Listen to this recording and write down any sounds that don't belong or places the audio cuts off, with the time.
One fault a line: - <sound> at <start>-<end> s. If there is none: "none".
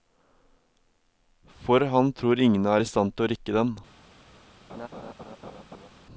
- laugh at 4.7-5.9 s